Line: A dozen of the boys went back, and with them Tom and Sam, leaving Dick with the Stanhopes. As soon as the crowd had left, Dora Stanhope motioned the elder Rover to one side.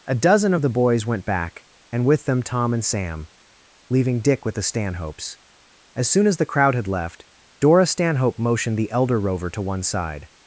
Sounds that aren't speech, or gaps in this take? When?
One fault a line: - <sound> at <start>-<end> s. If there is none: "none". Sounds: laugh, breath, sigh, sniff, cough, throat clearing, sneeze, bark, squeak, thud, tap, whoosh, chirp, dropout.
none